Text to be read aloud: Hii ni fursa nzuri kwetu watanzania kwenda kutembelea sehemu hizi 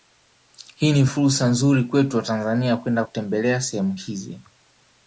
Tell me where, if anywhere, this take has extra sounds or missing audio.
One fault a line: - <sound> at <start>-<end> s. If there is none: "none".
none